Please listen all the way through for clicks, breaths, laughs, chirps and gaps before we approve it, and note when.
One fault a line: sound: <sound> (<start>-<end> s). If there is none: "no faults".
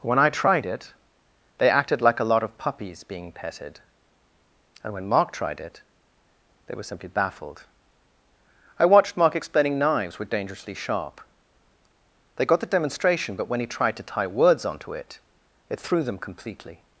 no faults